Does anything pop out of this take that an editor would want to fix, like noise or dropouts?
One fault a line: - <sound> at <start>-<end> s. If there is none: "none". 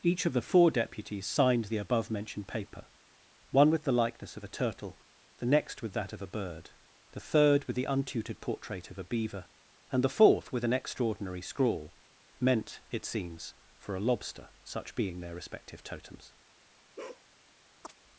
- bark at 17.0-17.3 s
- chirp at 17.8-17.9 s